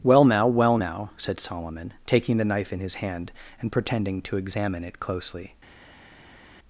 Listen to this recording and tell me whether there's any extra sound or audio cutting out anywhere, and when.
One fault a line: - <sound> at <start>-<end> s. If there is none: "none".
none